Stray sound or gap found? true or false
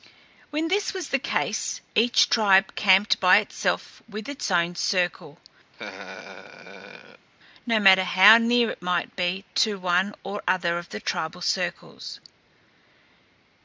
true